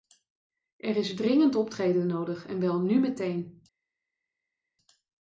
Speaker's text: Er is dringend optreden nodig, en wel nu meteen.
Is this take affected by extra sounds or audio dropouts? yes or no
no